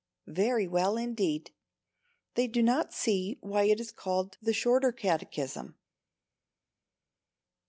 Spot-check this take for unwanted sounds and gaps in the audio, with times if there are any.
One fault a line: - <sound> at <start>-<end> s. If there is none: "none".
none